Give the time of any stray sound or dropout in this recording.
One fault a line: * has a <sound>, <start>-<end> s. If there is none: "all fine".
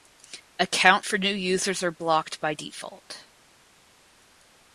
all fine